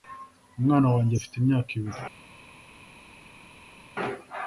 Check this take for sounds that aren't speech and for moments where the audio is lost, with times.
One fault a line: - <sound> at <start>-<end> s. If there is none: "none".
none